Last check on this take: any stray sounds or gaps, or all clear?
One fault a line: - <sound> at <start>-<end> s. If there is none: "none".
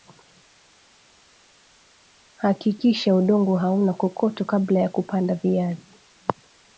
none